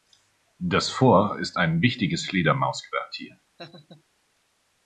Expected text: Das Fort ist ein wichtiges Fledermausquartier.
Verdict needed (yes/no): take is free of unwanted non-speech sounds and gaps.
no